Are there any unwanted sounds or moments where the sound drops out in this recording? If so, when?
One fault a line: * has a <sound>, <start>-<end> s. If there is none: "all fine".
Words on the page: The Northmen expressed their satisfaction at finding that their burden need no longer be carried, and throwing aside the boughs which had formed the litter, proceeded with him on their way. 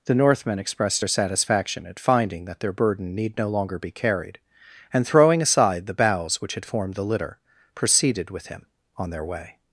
all fine